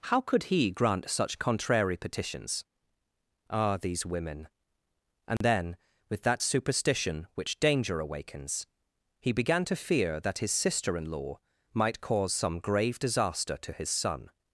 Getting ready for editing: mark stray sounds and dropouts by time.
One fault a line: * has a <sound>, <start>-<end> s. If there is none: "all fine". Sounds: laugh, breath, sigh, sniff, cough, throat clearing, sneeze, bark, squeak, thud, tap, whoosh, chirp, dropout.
* has a dropout, 5.4-5.4 s